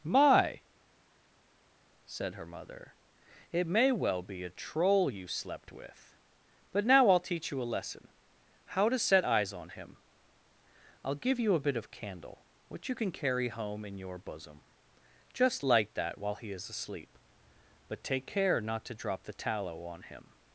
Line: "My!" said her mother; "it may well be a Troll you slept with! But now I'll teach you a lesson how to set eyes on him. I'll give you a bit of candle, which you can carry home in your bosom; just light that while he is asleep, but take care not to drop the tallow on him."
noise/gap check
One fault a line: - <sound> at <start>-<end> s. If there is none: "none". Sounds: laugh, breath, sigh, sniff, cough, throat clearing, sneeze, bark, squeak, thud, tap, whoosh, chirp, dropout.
none